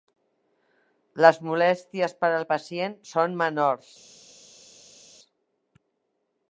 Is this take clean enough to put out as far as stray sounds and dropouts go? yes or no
yes